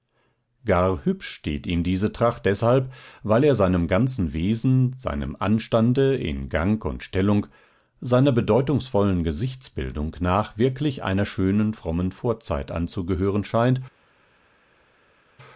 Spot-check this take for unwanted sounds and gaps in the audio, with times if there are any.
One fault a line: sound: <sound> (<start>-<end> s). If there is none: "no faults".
no faults